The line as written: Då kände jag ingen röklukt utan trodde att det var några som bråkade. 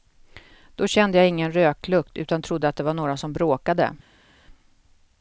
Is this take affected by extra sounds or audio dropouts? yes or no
no